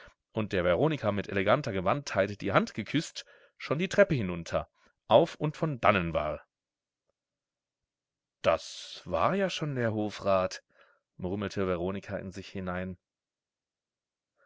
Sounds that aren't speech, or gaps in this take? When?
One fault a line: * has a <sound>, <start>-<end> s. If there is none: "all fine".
all fine